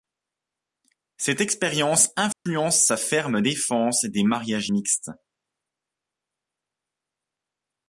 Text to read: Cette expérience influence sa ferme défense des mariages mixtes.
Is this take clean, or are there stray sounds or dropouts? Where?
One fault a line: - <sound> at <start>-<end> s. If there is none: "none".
- dropout at 2.3-2.5 s